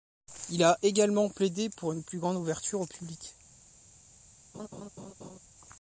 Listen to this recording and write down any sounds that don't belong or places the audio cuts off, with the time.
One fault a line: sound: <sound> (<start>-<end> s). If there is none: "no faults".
sound: laugh (4.5-5.4 s)